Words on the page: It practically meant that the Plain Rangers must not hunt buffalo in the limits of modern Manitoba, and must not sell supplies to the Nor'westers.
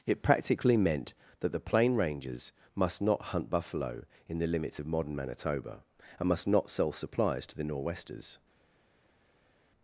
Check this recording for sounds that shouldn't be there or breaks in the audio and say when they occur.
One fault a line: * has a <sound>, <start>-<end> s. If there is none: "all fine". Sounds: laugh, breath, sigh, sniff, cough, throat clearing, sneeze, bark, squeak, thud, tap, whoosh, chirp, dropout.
all fine